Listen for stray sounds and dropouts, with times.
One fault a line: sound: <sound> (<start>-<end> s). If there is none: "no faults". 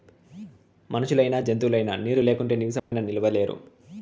sound: dropout (2.8-2.9 s)